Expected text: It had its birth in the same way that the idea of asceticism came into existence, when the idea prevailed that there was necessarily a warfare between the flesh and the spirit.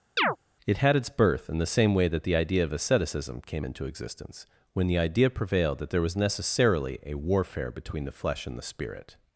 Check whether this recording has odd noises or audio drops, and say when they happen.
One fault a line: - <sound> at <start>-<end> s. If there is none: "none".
- chirp at 0.2-0.4 s